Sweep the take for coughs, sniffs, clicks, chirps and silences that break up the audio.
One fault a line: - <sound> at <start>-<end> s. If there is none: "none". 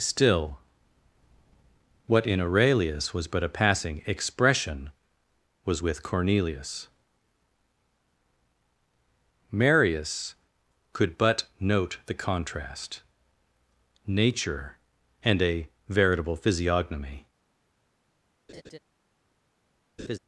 - laugh at 18.5-18.8 s
- laugh at 20.0-20.2 s